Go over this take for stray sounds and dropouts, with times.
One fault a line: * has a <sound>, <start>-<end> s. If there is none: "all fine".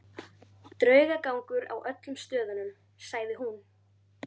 all fine